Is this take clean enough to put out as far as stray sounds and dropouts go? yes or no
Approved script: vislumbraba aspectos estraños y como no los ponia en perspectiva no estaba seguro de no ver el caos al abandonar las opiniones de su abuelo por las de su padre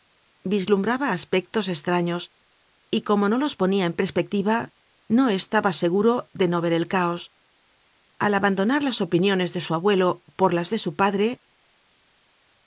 yes